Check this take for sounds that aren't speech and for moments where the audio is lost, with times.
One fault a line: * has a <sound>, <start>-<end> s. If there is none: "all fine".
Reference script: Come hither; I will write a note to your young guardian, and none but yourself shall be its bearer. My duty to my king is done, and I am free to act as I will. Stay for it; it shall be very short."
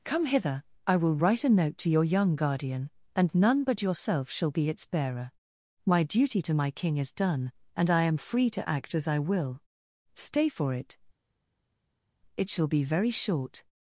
all fine